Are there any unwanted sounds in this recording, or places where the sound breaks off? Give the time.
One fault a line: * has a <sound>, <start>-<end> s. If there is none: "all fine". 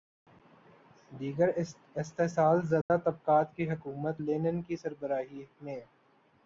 * has a dropout, 2.8-2.9 s